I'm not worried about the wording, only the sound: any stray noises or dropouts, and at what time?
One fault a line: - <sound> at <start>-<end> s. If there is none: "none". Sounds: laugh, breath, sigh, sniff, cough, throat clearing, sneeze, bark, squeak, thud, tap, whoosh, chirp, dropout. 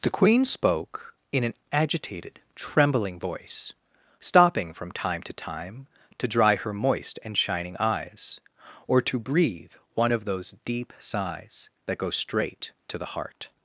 none